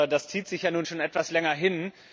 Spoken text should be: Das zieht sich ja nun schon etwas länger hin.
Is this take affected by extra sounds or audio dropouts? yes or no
no